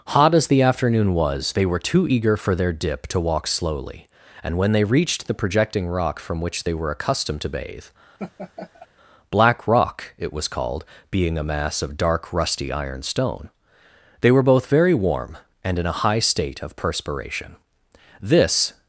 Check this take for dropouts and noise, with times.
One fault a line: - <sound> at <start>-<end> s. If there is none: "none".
- laugh at 8.2-8.9 s